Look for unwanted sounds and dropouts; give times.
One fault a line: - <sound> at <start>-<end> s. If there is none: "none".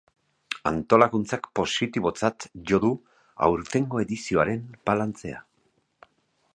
none